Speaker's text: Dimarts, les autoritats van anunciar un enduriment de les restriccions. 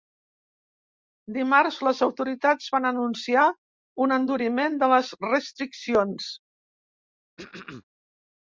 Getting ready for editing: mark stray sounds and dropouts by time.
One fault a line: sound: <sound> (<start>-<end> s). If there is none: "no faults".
sound: throat clearing (7.4-7.8 s)